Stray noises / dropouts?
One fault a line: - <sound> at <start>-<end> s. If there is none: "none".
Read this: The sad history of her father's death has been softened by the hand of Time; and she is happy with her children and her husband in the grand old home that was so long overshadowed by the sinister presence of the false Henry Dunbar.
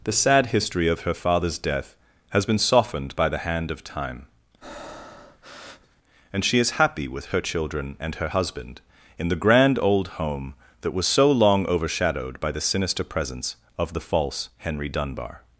- breath at 4.6-6.0 s